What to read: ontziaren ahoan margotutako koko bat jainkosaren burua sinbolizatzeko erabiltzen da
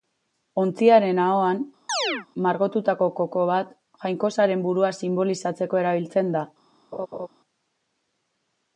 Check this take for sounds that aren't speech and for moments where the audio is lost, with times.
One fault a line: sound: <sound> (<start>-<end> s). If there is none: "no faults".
sound: chirp (1.9-2.3 s)
sound: laugh (6.9-7.3 s)